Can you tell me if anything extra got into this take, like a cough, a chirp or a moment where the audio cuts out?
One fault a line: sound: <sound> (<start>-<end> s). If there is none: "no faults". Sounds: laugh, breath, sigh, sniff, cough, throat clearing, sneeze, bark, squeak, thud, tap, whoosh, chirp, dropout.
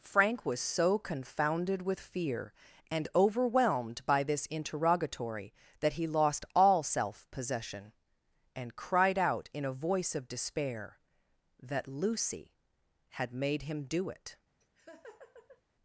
sound: laugh (14.6-15.6 s)